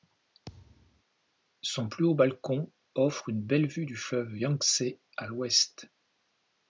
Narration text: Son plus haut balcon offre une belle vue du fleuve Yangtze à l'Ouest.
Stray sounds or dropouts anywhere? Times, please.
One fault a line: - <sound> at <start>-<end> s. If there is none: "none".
- thud at 0.5-1.0 s